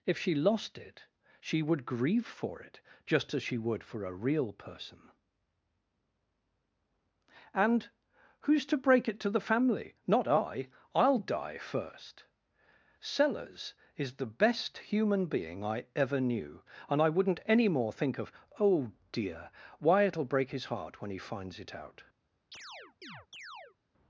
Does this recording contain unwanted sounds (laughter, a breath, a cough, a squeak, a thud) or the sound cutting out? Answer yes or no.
yes